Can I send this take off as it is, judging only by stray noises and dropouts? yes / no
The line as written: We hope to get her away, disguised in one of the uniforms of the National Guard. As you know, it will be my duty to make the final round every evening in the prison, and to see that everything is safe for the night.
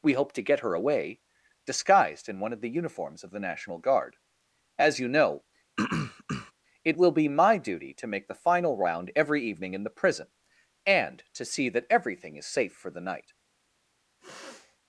no